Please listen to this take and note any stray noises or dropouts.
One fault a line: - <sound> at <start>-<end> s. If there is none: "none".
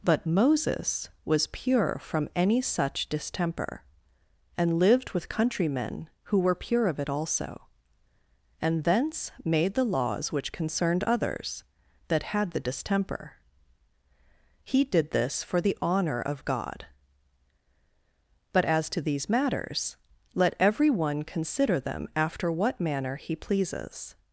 none